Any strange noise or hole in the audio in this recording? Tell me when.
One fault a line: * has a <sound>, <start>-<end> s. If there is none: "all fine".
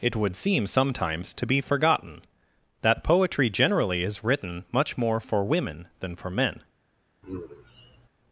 * has a sigh, 7.2-8.1 s